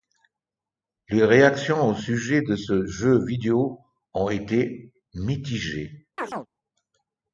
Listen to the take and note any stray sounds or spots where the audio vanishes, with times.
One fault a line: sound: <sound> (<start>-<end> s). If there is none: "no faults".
sound: chirp (6.2-6.5 s)